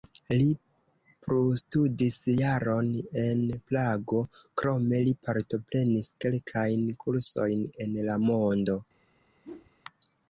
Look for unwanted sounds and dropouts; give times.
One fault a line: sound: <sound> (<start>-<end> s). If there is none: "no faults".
sound: whoosh (9.4-9.7 s)